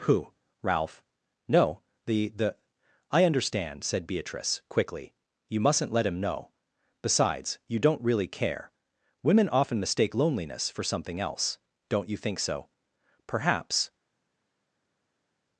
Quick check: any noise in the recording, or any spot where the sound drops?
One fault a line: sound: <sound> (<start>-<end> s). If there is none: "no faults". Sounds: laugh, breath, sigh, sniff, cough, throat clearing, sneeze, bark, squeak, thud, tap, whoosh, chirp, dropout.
no faults